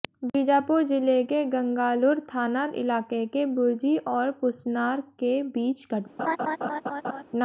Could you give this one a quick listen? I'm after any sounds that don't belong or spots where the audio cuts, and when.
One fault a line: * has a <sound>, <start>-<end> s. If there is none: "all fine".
* has a laugh, 6.2-7.2 s